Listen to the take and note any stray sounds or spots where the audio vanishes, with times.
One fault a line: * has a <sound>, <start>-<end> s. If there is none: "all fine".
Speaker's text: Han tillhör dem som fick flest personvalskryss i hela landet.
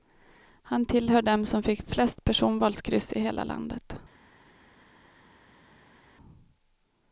all fine